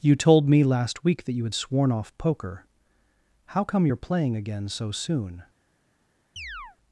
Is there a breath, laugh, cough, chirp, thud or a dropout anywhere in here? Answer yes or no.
yes